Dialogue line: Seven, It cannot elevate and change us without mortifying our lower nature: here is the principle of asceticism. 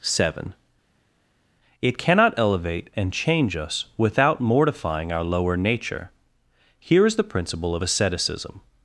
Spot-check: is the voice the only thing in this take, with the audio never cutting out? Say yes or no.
yes